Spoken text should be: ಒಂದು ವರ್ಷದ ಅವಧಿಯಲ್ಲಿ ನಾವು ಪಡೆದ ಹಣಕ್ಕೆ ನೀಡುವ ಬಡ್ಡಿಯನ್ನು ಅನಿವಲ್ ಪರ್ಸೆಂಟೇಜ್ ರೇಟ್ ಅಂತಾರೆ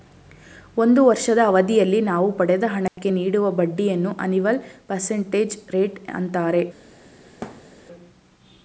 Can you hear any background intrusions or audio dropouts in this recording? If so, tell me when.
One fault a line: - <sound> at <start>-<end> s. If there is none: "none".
- dropout at 2.9-3.0 s
- thud at 7.4-7.7 s